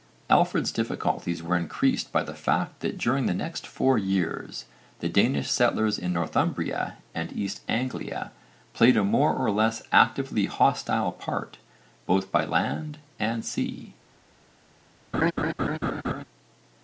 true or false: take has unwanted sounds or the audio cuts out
true